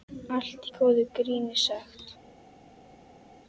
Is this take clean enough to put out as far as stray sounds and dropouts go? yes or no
yes